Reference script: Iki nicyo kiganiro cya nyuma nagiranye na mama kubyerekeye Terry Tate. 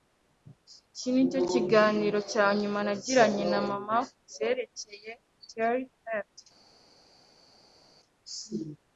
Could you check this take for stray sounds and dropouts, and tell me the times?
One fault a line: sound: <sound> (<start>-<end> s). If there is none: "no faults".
no faults